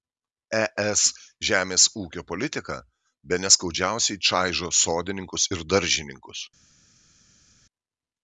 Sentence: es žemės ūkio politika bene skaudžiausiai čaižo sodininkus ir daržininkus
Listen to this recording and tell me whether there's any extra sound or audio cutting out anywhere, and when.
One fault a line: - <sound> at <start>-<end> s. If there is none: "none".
none